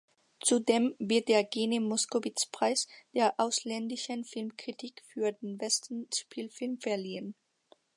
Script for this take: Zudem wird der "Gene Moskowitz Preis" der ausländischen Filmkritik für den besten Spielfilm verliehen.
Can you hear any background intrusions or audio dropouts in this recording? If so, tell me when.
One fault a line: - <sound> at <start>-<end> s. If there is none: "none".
none